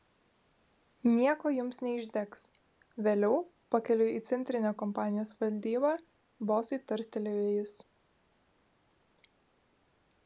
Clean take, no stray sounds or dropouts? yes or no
yes